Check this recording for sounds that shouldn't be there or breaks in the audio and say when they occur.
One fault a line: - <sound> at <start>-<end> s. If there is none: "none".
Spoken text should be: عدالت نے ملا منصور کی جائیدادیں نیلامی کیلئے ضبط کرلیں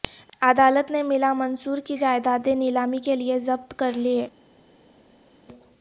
none